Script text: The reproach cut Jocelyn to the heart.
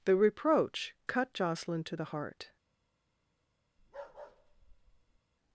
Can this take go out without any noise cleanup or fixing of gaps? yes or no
no